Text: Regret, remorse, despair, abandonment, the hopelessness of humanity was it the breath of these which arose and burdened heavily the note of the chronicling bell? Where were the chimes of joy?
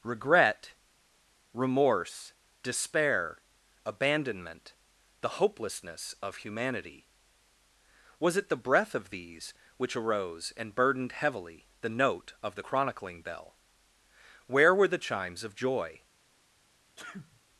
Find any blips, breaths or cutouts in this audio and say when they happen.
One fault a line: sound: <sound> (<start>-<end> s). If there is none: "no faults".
sound: sneeze (17.0-17.4 s)